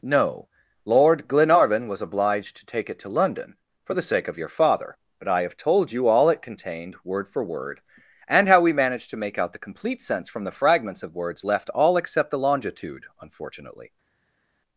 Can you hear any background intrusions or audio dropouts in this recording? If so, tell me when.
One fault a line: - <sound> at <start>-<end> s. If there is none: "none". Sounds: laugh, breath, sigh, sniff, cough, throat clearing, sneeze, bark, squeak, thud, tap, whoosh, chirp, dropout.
none